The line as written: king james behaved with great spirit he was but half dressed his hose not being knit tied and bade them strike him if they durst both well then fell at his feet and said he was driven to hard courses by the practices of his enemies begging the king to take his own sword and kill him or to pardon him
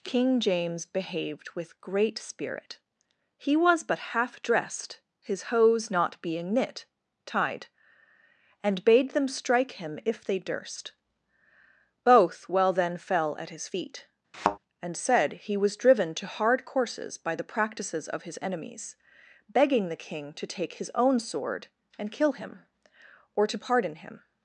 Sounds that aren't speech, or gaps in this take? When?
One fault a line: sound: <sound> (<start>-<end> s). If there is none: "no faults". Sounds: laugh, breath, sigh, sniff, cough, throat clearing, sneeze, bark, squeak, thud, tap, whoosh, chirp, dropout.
sound: thud (14.3-14.6 s)